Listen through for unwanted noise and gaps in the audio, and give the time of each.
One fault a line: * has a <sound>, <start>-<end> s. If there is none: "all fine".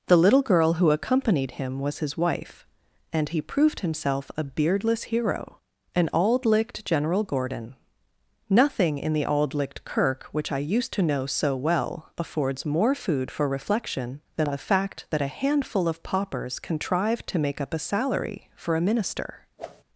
* has a whoosh, 19.6-19.8 s